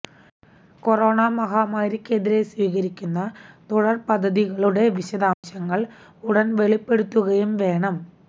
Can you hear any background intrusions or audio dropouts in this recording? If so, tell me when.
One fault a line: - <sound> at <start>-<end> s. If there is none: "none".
- dropout at 5.3-5.4 s